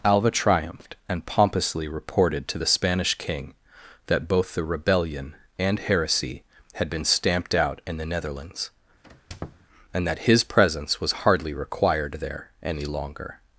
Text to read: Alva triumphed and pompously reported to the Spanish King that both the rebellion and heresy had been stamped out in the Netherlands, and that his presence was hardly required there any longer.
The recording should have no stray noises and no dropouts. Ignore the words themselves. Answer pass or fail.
fail